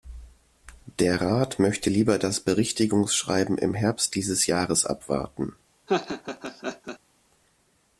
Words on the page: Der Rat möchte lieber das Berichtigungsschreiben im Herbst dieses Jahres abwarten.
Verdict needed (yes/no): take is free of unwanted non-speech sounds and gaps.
no